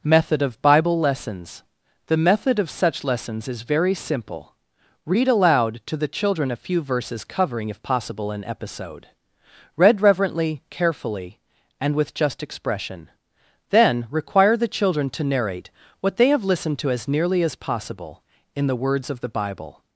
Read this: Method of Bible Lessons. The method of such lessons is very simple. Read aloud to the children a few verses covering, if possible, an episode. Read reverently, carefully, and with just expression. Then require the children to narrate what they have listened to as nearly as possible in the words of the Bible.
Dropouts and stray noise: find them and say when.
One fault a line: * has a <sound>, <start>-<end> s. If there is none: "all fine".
all fine